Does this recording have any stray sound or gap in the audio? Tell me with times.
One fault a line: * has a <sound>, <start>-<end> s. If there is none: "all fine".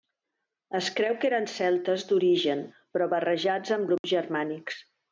* has a dropout, 4.0-4.0 s